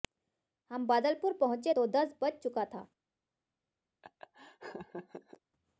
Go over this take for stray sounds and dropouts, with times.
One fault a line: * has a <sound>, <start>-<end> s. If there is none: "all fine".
* has a laugh, 4.0-5.4 s